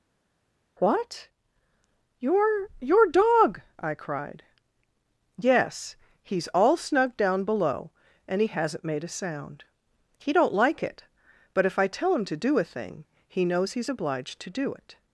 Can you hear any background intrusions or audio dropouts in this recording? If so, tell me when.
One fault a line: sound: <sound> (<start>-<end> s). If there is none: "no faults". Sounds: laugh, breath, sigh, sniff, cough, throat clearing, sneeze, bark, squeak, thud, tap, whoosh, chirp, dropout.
no faults